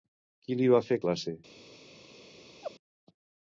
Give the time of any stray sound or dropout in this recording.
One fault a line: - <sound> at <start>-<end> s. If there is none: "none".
- laugh at 2.6-2.7 s